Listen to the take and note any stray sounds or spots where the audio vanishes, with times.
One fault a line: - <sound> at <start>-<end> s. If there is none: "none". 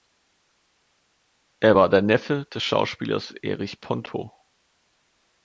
none